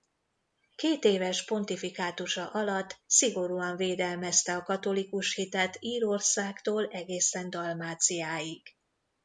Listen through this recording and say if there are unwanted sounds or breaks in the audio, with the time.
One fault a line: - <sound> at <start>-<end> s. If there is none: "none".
none